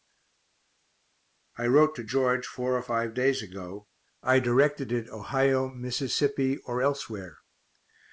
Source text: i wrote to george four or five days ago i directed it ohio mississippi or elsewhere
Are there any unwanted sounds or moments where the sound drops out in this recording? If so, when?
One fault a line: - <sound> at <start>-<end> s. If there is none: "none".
none